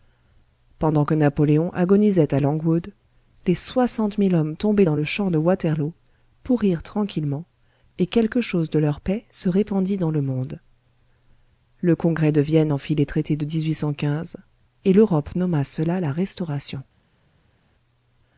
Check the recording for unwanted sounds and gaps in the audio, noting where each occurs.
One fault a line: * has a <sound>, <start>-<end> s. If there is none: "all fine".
all fine